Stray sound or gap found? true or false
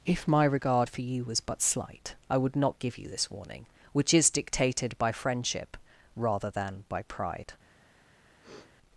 true